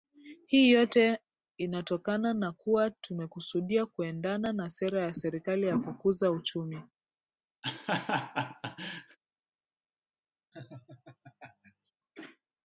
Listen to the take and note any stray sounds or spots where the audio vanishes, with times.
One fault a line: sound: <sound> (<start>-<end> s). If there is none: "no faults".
sound: laugh (7.6-9.2 s)
sound: laugh (10.5-11.9 s)